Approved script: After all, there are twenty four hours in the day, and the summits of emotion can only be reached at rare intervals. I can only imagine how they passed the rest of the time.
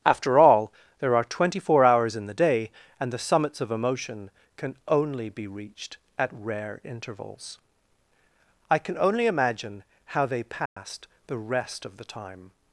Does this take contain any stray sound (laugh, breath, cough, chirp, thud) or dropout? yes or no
yes